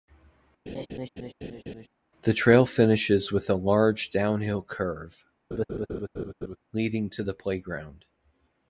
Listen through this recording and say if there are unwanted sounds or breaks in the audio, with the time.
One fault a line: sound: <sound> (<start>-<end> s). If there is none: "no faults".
sound: laugh (0.7-1.9 s)
sound: laugh (5.5-6.6 s)